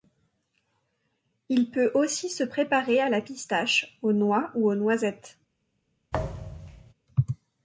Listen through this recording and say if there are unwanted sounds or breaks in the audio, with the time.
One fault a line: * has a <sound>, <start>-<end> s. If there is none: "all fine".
* has a thud, 6.1-6.9 s